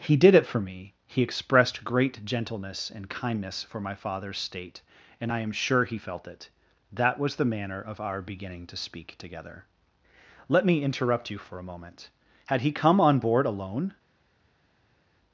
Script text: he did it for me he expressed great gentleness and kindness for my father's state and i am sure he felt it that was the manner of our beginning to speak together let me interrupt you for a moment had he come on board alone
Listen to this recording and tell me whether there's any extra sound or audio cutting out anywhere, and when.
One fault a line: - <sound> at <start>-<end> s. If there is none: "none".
none